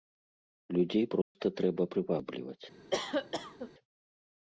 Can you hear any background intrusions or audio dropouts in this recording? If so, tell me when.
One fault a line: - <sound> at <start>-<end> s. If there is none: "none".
- dropout at 1.2-1.4 s
- cough at 2.9-3.7 s